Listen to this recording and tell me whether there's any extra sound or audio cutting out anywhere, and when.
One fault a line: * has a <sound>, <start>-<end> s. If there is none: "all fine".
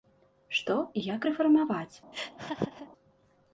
* has a laugh, 2.1-2.9 s